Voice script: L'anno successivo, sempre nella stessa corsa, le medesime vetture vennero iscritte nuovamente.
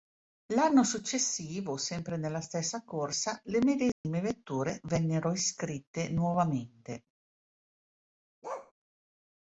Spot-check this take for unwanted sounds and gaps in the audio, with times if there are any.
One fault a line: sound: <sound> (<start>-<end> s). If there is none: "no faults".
sound: dropout (3.9-4.0 s)
sound: bark (8.4-8.7 s)